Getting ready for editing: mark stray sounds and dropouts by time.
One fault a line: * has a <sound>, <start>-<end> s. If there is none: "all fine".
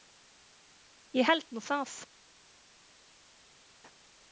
all fine